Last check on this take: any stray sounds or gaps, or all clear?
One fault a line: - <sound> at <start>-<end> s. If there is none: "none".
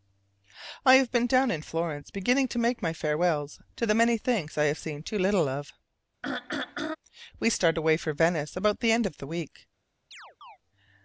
- throat clearing at 6.2-7.0 s
- chirp at 10.1-10.6 s